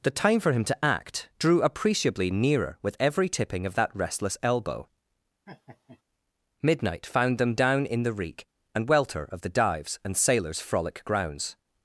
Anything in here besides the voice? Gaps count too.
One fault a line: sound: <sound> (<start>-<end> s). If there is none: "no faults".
sound: laugh (5.5-6.0 s)